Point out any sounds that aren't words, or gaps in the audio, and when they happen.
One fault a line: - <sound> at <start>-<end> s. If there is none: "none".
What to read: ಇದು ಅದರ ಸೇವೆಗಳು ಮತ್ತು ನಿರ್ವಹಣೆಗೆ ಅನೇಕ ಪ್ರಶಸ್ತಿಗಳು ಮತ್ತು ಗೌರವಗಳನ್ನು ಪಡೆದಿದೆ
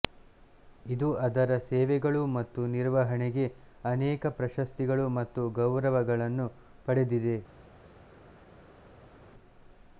none